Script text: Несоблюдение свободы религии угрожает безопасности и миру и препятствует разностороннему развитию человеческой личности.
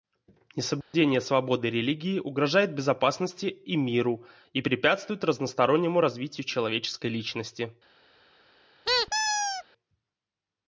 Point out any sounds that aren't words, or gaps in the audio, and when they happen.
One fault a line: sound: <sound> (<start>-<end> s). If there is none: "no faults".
sound: dropout (0.8-0.9 s)
sound: squeak (8.8-9.6 s)